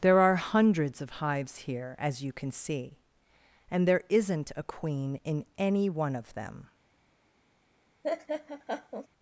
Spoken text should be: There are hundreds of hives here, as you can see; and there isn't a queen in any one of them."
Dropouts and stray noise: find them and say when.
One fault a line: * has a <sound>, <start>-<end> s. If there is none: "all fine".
* has a laugh, 8.0-9.1 s